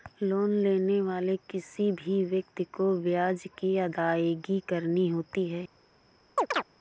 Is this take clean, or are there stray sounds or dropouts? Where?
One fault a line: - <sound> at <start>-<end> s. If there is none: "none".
- chirp at 6.4-6.6 s